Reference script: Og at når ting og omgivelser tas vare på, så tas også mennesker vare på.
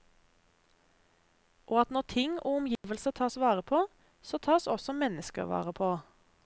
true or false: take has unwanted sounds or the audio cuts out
true